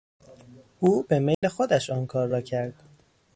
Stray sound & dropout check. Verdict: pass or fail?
fail